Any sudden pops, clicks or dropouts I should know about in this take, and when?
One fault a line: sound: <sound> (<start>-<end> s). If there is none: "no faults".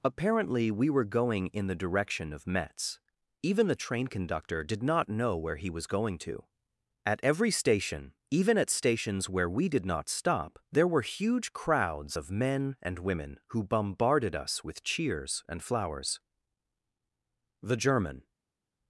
no faults